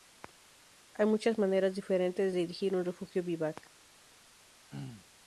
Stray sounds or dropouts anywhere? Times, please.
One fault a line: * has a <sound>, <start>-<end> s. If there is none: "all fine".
* has a throat clearing, 4.7-5.1 s